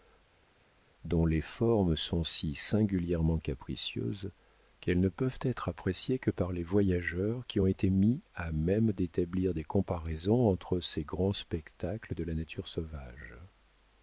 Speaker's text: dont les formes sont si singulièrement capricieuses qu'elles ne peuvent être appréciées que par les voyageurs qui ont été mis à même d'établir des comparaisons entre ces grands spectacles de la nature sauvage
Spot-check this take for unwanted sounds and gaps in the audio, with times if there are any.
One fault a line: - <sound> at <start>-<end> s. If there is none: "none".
none